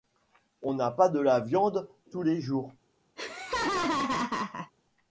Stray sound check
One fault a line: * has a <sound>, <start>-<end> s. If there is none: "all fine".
* has a laugh, 3.2-4.7 s